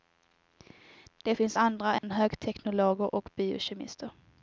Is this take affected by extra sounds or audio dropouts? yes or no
yes